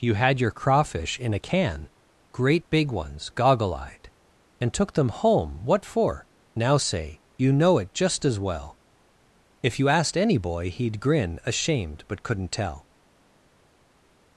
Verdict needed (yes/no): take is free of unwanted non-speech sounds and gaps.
yes